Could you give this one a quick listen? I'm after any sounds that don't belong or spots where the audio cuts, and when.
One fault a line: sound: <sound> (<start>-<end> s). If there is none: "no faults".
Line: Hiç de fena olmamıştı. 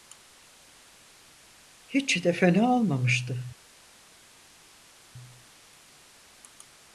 no faults